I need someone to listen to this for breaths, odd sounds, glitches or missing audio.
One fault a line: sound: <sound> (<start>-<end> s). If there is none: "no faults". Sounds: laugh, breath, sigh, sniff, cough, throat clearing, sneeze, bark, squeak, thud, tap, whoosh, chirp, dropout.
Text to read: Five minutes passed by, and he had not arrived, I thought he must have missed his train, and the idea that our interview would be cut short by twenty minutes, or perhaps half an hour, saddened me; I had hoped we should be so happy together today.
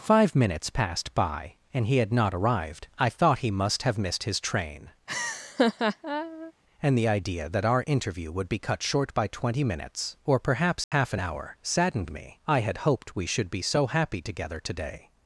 sound: laugh (5.1-6.5 s)
sound: dropout (10.8-10.9 s)